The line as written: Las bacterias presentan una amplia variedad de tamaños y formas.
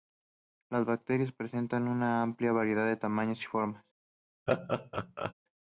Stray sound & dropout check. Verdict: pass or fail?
fail